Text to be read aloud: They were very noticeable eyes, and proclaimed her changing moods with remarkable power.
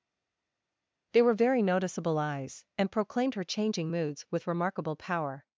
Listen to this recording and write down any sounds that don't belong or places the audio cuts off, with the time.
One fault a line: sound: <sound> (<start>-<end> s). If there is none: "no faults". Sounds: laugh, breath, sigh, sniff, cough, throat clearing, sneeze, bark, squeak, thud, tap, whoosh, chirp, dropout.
no faults